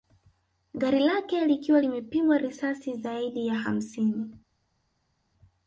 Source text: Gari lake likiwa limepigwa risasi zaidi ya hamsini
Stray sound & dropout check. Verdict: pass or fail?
pass